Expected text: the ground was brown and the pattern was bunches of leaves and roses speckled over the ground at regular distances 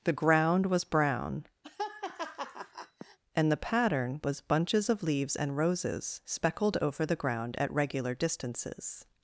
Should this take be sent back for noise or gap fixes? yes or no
yes